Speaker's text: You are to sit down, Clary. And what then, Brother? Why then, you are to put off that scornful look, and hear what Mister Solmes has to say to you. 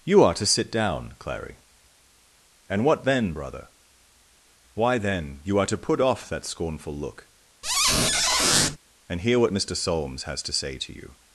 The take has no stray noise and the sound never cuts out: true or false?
false